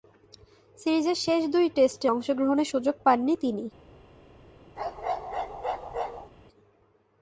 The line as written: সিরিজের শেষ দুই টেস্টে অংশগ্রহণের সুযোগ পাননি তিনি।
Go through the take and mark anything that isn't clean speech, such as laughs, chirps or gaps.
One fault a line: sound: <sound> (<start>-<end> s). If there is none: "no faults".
sound: bark (4.8-6.3 s)